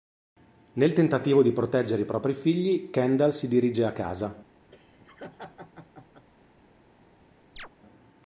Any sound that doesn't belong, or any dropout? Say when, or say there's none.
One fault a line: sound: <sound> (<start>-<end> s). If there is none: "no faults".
sound: laugh (4.7-6.3 s)
sound: chirp (7.6-7.7 s)